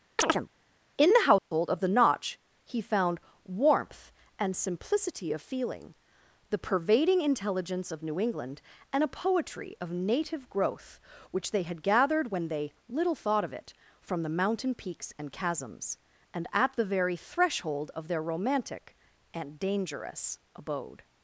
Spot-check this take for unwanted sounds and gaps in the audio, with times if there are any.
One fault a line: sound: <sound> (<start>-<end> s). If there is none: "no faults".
sound: chirp (0.2-0.5 s)
sound: dropout (1.4-1.5 s)